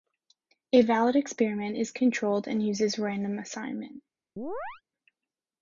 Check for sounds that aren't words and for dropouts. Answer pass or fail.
fail